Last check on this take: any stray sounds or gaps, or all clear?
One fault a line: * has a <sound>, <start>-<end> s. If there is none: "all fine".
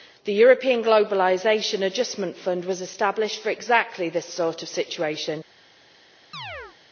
* has a chirp, 6.3-6.8 s